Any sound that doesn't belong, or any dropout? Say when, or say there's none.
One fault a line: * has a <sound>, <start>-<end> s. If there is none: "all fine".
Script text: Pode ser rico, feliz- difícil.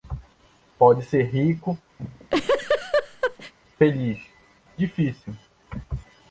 * has a laugh, 2.0-3.5 s